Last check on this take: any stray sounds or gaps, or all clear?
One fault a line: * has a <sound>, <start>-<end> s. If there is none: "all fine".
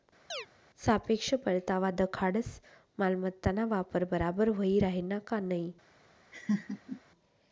* has a chirp, 0.3-0.5 s
* has a laugh, 6.3-7.0 s